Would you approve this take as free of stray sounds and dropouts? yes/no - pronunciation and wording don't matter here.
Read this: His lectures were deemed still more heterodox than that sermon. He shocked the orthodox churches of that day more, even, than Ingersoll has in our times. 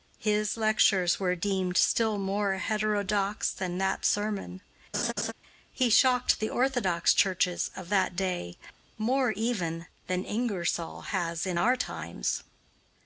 no